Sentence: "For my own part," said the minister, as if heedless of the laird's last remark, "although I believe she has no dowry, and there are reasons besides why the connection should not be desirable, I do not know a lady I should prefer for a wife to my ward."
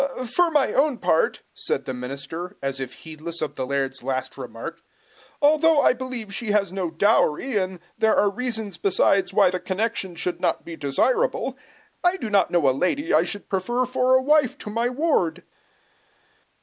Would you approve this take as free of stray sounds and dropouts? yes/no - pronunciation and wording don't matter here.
yes